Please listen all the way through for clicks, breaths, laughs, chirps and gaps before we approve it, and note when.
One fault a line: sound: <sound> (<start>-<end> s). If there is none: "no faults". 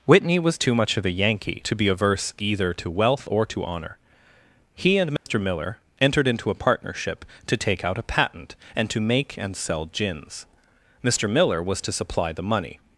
sound: dropout (5.2-5.3 s)